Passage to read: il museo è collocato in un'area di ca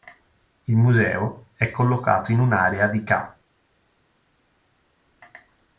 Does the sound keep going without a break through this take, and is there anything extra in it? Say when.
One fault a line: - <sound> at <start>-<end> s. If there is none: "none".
none